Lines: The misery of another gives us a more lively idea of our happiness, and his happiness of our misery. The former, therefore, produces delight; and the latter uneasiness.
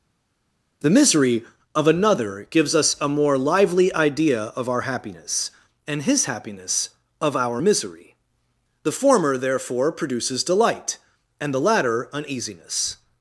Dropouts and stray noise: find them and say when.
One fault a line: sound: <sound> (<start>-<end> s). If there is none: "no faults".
no faults